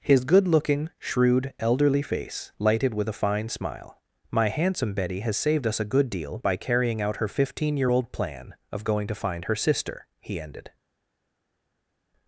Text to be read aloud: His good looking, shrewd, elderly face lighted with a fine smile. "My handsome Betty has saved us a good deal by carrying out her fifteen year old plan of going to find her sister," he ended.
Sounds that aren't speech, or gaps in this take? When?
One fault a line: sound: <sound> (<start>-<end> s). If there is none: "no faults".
no faults